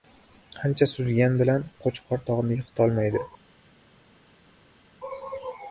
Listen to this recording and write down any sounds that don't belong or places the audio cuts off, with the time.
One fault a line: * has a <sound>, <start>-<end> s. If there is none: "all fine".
all fine